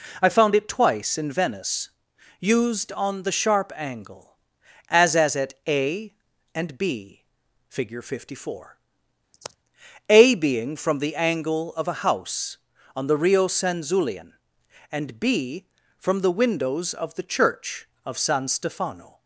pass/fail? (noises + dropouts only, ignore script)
fail